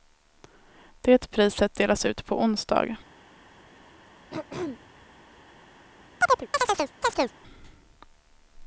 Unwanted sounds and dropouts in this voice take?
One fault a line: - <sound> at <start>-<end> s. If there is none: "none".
- throat clearing at 4.3-5.1 s
- chirp at 6.2-7.3 s